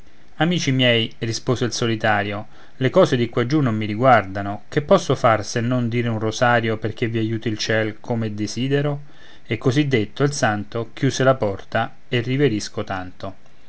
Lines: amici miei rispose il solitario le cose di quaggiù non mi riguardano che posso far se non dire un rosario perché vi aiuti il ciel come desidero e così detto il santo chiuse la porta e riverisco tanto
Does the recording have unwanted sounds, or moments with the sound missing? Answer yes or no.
no